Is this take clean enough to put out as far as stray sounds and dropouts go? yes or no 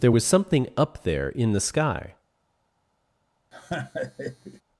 no